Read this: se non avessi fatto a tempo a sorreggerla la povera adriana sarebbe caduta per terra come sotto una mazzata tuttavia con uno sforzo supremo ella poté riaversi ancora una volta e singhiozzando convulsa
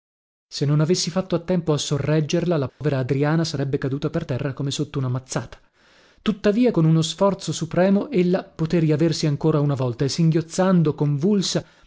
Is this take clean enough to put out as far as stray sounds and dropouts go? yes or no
no